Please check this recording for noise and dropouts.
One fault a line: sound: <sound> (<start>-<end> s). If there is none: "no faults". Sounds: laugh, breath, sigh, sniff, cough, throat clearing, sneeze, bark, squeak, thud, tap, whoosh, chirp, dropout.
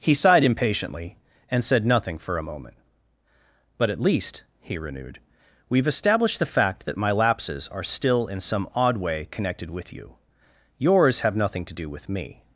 no faults